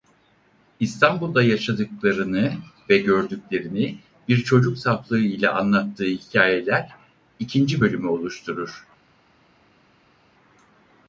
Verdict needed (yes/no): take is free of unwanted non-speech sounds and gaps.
yes